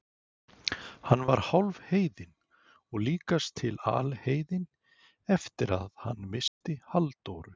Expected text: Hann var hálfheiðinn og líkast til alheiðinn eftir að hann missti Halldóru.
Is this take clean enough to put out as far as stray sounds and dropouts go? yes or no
no